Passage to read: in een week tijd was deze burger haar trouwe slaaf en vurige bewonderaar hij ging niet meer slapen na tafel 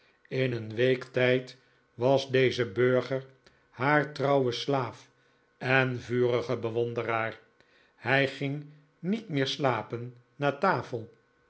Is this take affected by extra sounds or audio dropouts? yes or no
no